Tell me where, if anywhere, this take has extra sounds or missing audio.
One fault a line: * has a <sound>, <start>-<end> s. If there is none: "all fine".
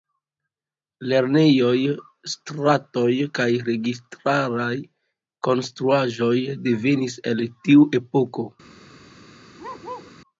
* has a bark, 9.6-10.1 s